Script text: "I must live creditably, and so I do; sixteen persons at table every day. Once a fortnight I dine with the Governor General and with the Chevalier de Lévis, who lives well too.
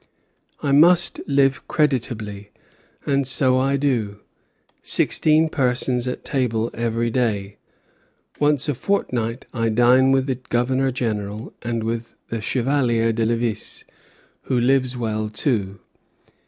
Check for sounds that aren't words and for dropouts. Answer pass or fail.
pass